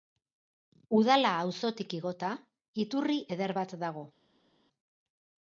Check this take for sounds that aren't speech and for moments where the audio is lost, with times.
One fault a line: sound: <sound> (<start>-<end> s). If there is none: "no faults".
no faults